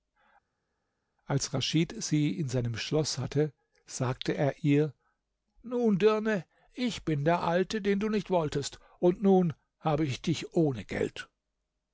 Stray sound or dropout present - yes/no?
no